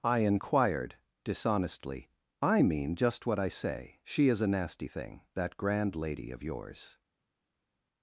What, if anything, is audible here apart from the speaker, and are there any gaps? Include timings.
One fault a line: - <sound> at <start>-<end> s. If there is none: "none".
none